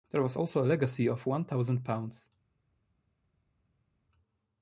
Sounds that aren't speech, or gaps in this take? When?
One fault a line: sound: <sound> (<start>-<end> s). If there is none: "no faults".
no faults